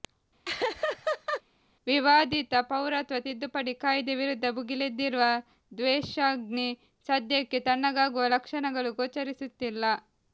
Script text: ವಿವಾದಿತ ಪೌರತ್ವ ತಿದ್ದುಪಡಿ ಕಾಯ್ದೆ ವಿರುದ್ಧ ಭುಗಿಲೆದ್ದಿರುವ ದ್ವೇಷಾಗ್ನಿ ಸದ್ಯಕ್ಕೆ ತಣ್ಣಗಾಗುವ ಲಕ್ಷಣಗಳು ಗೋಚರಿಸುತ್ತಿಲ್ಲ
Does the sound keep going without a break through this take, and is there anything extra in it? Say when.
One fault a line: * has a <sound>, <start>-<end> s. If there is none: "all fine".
* has a laugh, 0.4-1.4 s